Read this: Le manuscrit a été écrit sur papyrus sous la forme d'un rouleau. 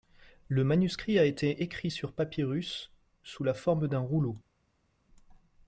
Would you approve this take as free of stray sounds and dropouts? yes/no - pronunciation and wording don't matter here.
yes